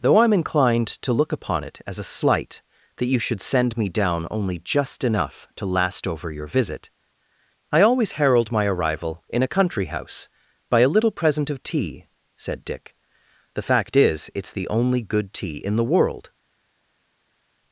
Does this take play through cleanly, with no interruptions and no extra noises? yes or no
yes